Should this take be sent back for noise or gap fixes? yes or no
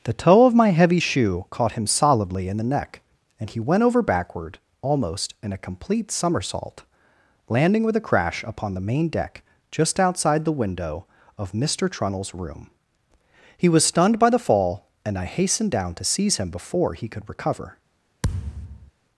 yes